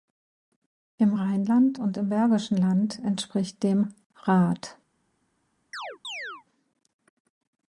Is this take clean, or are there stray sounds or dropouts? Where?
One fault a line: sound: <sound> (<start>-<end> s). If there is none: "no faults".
sound: chirp (5.7-6.4 s)